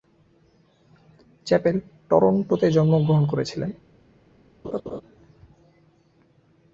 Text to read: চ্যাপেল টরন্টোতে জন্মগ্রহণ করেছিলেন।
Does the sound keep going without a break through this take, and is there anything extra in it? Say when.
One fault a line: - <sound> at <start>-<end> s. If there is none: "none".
- laugh at 4.6-5.0 s